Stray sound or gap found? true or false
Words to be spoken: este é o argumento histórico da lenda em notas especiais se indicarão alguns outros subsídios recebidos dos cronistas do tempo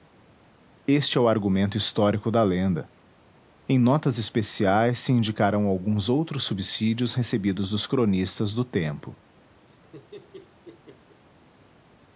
true